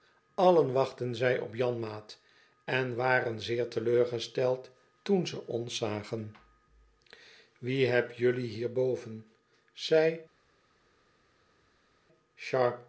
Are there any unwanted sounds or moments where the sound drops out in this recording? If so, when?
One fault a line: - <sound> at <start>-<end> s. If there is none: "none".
none